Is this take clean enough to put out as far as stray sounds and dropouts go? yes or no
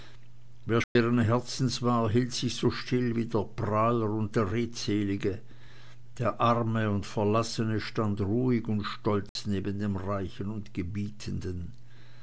no